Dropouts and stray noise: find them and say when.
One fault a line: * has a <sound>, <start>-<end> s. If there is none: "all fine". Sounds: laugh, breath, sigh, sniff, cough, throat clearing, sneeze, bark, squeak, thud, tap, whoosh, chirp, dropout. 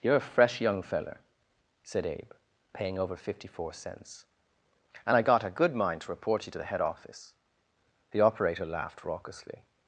all fine